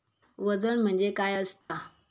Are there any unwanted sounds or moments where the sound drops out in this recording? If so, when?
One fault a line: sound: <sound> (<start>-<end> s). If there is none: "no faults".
sound: dropout (1.6-1.7 s)